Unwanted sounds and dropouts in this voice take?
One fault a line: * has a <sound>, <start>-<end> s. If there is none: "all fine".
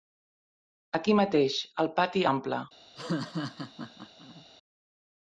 * has a laugh, 3.0-4.5 s